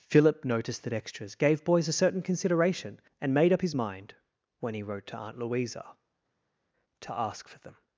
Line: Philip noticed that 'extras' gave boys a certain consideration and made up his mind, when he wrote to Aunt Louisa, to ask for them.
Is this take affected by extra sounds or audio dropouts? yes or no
no